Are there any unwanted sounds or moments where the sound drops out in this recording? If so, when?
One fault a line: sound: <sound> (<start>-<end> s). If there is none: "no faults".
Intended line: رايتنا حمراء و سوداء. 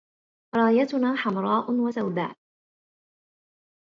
no faults